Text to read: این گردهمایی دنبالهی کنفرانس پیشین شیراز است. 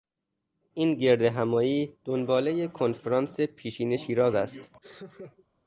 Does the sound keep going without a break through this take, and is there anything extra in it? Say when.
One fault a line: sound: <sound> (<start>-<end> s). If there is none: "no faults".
sound: laugh (4.8-5.5 s)